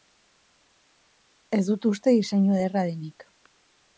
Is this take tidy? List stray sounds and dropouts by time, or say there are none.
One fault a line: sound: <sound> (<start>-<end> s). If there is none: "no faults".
no faults